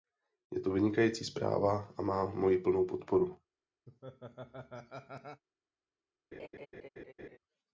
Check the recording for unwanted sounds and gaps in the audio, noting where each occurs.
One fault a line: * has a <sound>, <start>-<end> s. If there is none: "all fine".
* has a laugh, 3.9-5.4 s
* has a laugh, 6.3-7.4 s